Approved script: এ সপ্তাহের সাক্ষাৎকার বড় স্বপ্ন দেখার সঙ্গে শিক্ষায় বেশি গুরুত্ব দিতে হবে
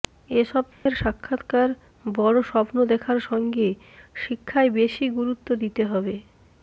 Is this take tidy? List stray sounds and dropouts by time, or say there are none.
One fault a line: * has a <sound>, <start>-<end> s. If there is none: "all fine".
* has a dropout, 0.7-0.9 s